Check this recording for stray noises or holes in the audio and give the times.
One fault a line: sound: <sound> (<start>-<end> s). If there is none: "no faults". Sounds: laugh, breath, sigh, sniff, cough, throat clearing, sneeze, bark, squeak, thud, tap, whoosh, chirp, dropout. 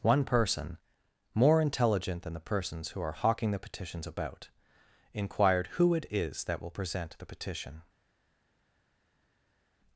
no faults